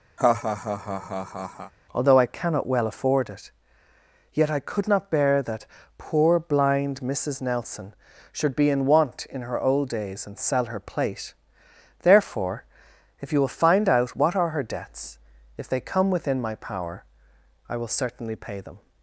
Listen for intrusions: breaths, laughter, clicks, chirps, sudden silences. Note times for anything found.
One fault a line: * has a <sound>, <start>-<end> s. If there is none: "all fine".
* has a laugh, 0.2-1.7 s